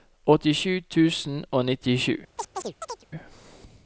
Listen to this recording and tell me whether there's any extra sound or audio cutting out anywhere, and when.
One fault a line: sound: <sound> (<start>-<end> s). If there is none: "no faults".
sound: chirp (2.4-3.1 s)